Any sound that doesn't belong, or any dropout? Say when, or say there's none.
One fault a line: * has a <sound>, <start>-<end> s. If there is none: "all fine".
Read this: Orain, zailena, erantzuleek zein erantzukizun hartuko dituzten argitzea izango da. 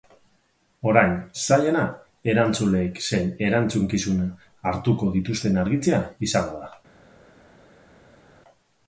all fine